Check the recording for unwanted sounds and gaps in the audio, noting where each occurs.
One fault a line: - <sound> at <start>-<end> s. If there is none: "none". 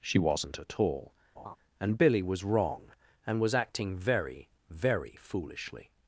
- laugh at 1.4-1.6 s